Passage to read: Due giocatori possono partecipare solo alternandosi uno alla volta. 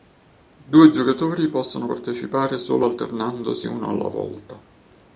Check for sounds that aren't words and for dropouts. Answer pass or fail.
pass